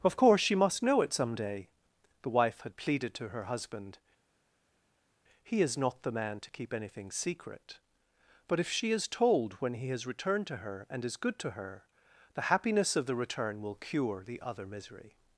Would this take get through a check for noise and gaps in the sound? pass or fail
pass